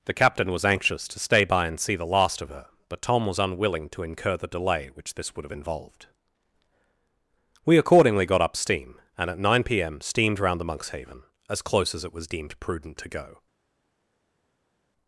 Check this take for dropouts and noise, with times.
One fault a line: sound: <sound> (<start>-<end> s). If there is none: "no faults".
no faults